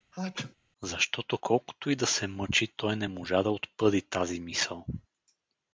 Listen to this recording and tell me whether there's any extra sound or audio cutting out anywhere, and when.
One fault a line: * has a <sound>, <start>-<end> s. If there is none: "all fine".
* has a sneeze, 0.1-0.6 s